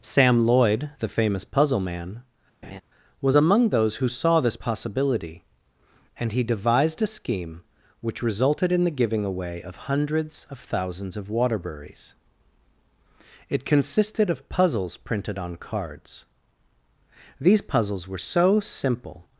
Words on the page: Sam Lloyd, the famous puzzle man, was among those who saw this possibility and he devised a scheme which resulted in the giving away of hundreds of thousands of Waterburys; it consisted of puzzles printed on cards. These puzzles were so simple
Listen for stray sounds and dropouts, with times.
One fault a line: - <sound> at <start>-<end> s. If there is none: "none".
- laugh at 2.6-2.8 s